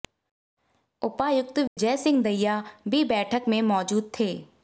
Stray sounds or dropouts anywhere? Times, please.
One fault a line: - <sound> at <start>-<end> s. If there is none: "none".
- dropout at 1.7-1.8 s